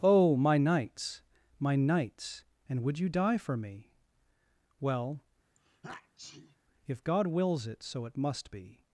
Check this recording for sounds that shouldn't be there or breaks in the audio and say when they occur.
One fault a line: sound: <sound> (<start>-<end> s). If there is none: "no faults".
sound: sneeze (5.6-6.6 s)